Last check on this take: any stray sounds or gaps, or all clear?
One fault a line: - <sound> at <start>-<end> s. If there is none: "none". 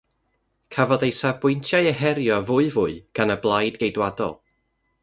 none